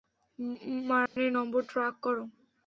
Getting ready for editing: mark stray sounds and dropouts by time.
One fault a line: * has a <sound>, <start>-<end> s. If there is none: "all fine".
* has a dropout, 1.1-1.2 s